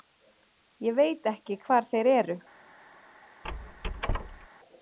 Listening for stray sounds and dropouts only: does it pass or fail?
fail